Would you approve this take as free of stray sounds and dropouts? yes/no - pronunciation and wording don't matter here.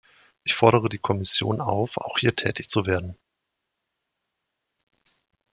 yes